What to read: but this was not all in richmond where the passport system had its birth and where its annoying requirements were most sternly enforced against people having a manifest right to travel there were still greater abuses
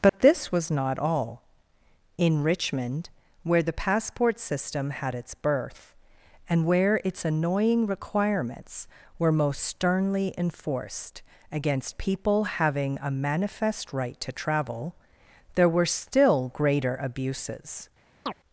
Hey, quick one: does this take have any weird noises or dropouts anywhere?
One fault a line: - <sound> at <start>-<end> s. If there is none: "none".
- dropout at 0.1-0.1 s
- chirp at 18.3-18.3 s